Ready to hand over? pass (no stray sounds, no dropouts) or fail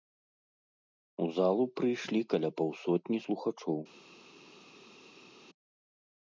pass